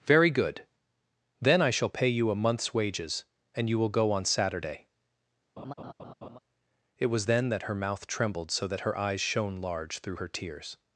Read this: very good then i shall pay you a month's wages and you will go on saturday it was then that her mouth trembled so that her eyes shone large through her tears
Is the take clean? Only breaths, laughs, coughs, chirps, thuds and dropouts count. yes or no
no